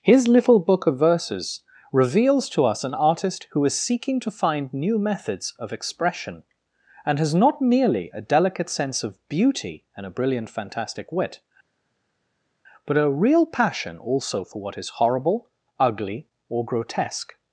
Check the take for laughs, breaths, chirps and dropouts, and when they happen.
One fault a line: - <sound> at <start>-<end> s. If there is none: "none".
none